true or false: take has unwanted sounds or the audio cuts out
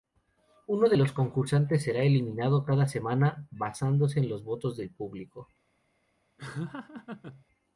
true